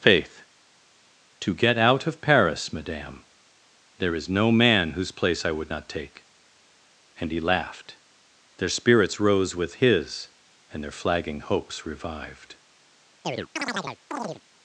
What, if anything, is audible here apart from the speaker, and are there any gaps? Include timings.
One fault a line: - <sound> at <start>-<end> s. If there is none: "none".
- chirp at 13.2-14.4 s